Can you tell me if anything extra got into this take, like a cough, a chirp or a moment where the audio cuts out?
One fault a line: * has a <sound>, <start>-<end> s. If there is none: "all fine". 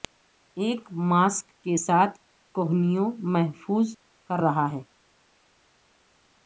all fine